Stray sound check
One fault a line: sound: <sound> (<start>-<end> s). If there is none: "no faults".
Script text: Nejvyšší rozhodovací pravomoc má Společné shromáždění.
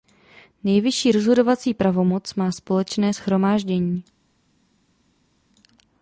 no faults